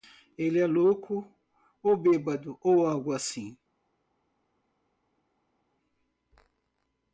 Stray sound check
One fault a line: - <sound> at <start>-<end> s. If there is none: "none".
none